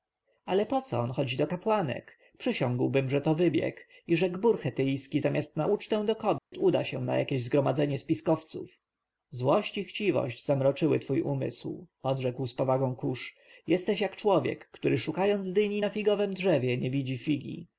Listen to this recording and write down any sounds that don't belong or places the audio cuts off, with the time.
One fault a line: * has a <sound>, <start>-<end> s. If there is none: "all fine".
* has a dropout, 6.4-6.5 s